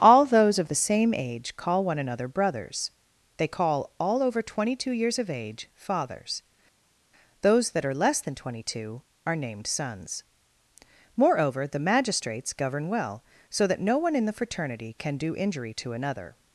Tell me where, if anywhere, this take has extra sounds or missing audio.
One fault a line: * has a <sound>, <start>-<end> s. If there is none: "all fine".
all fine